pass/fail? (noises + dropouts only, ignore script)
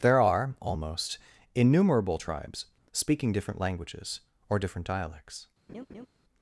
fail